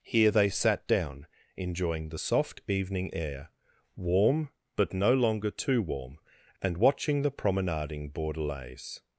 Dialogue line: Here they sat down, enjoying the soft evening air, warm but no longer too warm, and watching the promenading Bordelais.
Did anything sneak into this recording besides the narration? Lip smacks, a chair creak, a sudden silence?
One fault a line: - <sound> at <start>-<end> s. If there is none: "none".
none